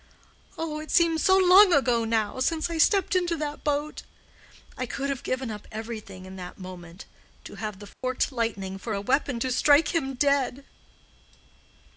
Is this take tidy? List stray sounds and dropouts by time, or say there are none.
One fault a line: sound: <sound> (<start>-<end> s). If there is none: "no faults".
sound: dropout (7.9-8.0 s)